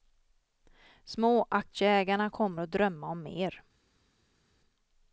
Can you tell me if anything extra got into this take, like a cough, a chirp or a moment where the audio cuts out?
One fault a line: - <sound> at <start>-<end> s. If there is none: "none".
none